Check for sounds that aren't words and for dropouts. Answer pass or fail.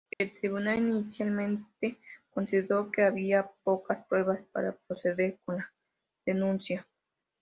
fail